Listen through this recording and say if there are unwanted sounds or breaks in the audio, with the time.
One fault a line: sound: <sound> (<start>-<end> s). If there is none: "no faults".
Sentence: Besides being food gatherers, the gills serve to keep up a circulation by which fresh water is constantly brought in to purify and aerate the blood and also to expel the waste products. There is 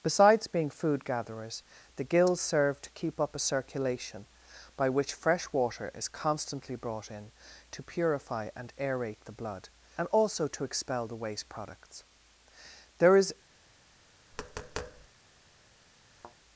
sound: tap (14.3-15.1 s)
sound: thud (16.1-16.4 s)